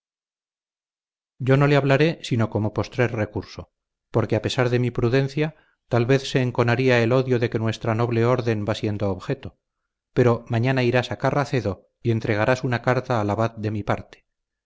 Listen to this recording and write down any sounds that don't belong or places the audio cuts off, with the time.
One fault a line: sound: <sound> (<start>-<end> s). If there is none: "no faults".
no faults